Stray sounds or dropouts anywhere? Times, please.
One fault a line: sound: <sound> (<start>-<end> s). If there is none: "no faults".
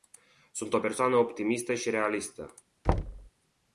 sound: thud (2.8-3.3 s)